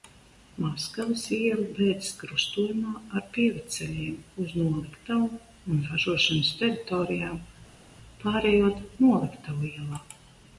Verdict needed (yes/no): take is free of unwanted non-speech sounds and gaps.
yes